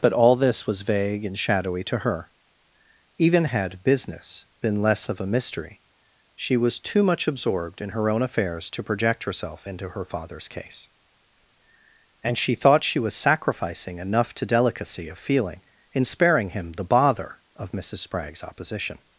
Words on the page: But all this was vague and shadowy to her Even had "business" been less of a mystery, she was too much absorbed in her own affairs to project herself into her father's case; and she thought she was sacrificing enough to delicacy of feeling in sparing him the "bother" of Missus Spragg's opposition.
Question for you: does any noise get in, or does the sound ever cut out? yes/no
no